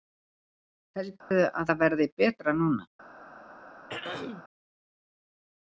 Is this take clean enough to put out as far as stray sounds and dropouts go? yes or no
no